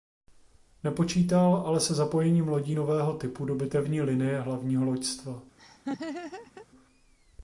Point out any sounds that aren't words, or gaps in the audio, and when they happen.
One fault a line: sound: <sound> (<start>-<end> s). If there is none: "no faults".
sound: laugh (5.6-6.7 s)